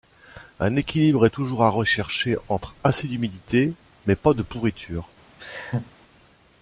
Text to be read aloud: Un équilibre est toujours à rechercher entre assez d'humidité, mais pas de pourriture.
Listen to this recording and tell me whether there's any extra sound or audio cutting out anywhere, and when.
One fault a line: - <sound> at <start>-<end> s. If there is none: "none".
- laugh at 5.4-5.9 s